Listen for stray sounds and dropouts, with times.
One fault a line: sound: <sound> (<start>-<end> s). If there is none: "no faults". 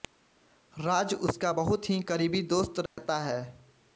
sound: dropout (2.9-3.0 s)